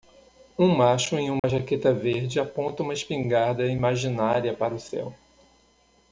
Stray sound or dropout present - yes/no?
yes